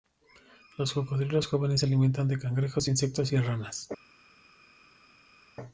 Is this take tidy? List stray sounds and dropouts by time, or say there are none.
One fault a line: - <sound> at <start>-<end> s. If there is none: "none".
none